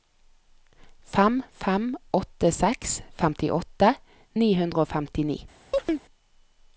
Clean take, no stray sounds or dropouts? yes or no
no